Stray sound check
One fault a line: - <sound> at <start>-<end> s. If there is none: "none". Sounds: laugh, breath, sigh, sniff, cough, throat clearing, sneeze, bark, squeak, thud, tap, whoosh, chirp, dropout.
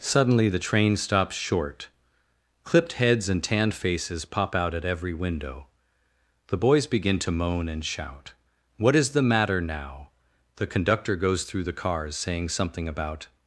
none